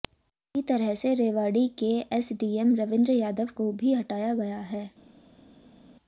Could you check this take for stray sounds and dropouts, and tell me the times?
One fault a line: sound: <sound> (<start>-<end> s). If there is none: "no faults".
no faults